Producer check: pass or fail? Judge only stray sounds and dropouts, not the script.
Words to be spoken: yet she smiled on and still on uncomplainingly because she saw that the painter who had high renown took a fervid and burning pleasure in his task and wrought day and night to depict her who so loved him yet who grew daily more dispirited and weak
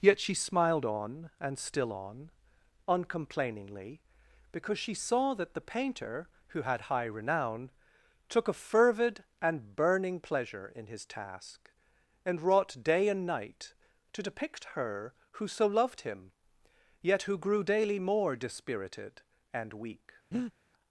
fail